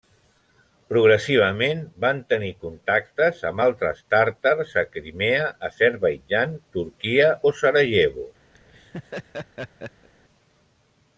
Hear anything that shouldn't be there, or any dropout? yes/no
yes